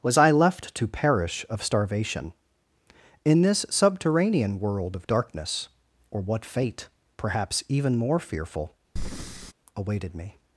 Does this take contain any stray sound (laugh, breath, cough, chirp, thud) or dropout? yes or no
yes